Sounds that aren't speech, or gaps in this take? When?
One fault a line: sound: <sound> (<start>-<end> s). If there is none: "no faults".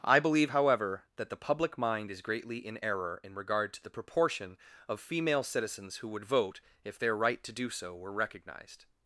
no faults